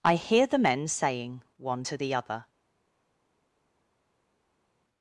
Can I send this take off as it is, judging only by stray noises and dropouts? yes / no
yes